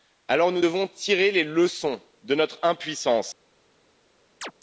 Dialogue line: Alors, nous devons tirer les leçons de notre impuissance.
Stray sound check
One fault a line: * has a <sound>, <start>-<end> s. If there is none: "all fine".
* has a chirp, 4.4-4.5 s